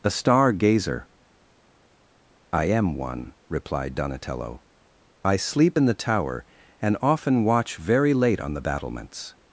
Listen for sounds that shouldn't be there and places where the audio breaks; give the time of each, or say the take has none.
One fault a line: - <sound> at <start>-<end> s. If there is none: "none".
none